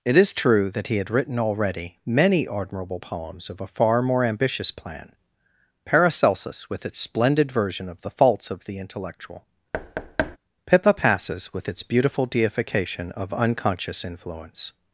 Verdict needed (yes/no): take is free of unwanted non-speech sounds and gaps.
no